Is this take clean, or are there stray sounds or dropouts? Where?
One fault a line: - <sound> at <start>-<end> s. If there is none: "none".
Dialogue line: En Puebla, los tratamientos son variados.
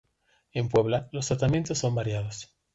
none